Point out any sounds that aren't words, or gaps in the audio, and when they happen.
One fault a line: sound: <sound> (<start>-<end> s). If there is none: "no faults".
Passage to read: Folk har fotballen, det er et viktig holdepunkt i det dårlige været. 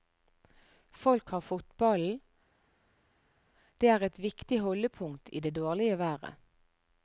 no faults